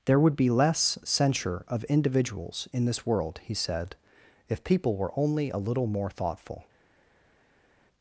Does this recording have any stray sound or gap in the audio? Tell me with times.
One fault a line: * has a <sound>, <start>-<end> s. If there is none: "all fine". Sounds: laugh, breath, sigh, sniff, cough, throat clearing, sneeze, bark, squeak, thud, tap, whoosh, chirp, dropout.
all fine